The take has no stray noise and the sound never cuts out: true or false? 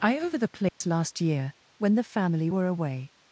false